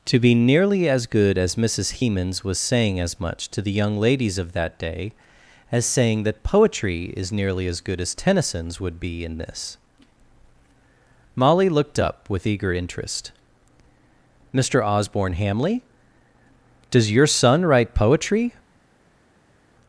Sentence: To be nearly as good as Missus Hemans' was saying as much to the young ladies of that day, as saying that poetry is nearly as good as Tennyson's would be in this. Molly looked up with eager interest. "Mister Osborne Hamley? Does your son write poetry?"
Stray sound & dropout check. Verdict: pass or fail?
pass